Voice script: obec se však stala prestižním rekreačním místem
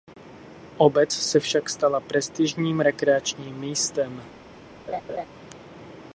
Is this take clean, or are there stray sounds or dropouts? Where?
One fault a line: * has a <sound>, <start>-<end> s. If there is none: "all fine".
* has a laugh, 4.9-5.3 s